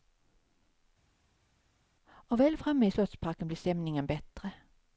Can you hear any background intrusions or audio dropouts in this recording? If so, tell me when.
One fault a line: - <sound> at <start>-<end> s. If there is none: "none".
none